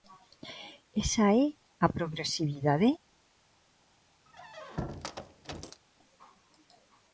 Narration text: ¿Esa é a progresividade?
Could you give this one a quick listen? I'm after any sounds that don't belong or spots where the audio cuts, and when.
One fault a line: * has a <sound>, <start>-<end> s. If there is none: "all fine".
* has a squeak, 4.3-5.8 s